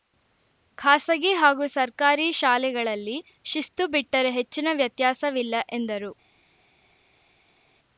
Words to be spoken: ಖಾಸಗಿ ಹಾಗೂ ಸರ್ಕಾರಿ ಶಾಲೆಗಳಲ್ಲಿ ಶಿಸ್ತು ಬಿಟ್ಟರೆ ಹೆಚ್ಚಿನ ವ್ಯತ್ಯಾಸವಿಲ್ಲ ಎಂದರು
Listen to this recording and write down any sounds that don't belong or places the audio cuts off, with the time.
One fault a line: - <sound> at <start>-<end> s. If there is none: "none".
none